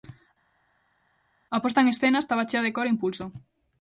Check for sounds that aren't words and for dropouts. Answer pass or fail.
pass